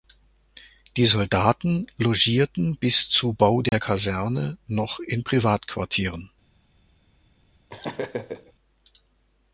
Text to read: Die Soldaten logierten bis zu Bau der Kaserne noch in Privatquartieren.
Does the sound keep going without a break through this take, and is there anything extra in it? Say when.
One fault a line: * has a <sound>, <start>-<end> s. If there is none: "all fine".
* has a dropout, 3.7-3.7 s
* has a laugh, 7.7-8.5 s